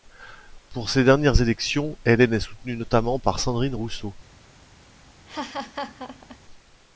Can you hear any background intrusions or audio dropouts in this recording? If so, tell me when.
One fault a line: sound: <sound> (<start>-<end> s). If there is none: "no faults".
sound: laugh (5.3-6.4 s)